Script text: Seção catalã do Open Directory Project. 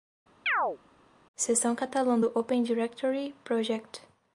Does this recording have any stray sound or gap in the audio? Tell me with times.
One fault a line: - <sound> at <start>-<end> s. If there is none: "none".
- chirp at 0.5-0.8 s